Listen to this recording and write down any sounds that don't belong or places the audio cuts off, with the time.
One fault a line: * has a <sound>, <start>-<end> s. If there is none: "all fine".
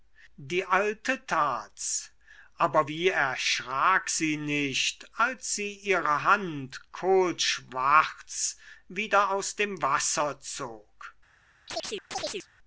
* has a chirp, 11.7-12.5 s